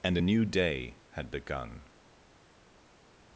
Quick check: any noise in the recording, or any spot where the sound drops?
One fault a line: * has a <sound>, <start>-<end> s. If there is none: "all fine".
all fine